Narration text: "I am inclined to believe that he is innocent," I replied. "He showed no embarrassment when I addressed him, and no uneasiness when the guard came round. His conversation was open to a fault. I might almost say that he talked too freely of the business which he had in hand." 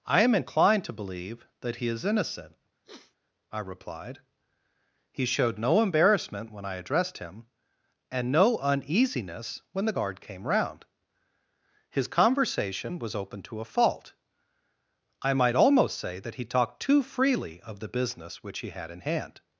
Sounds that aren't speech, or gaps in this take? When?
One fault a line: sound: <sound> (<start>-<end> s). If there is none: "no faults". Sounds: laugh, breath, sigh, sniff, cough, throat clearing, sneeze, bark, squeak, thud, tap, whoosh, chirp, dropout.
sound: sniff (2.8-3.2 s)